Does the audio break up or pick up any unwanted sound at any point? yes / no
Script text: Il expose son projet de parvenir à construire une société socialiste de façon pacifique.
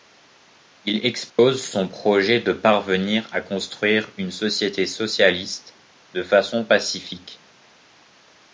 yes